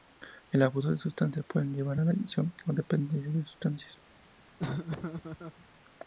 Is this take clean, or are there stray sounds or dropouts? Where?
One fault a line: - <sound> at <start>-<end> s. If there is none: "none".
- laugh at 4.6-5.7 s